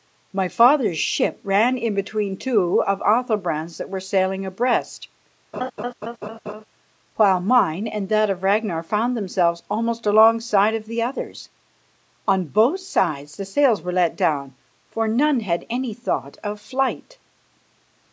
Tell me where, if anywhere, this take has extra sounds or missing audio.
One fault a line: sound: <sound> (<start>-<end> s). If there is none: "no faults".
sound: laugh (5.5-6.6 s)